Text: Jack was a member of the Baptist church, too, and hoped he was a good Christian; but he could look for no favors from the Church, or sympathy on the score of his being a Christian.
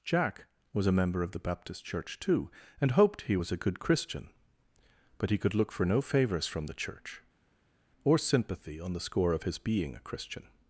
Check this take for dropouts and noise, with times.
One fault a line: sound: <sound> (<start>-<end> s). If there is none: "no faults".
no faults